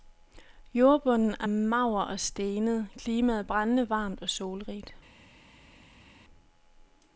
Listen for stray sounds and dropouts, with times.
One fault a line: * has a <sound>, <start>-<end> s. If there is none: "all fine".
all fine